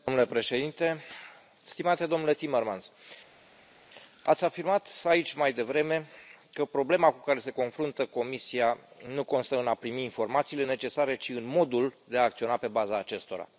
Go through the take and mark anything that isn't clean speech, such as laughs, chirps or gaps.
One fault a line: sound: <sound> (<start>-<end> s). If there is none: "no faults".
no faults